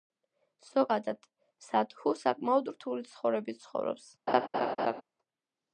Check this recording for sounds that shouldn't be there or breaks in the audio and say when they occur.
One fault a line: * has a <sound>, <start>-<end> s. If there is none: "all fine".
* has a laugh, 4.3-5.0 s